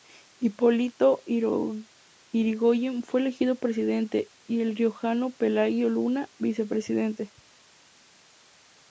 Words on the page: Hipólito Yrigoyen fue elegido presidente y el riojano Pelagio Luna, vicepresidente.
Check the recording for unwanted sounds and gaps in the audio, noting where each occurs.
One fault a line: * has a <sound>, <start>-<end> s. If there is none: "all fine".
all fine